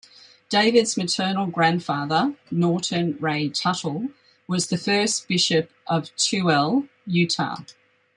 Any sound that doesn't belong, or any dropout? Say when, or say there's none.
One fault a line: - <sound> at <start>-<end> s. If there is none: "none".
none